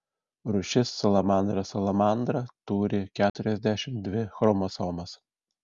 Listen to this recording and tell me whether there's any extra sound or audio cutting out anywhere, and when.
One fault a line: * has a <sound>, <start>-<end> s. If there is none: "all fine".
* has a dropout, 3.3-3.3 s